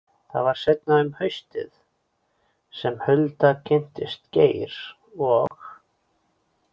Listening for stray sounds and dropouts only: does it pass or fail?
fail